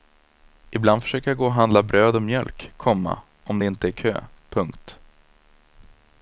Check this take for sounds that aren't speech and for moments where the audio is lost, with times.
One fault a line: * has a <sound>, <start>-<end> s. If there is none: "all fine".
all fine